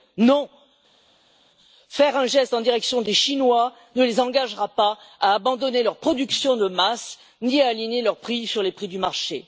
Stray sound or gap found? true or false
false